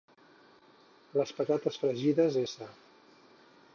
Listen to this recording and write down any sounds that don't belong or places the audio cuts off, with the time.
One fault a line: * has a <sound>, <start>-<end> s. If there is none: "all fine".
all fine